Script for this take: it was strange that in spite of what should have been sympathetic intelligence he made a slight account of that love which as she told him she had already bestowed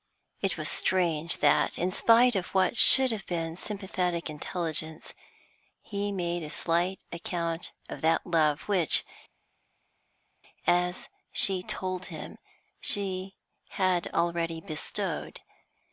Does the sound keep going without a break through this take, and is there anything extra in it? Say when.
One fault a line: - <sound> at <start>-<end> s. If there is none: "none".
none